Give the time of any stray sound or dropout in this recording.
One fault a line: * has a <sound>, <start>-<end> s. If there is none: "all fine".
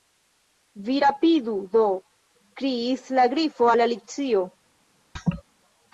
* has a laugh, 5.2-5.4 s